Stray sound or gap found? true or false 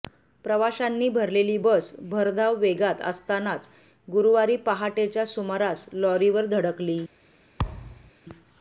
true